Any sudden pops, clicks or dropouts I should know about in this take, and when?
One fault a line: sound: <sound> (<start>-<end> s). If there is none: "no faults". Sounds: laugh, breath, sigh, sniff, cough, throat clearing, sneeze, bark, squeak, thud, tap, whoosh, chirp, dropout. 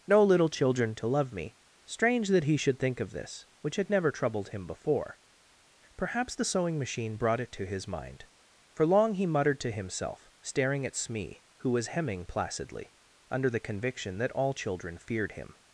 no faults